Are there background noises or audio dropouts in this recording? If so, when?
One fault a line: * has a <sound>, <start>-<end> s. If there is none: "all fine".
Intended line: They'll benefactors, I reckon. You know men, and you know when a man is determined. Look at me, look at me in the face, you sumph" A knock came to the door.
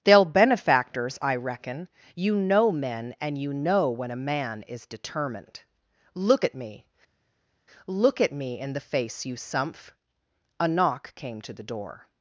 all fine